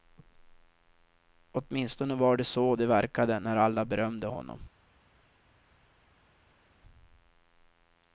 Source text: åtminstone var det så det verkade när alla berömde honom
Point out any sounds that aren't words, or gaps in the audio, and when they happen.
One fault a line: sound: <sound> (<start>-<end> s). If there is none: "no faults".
no faults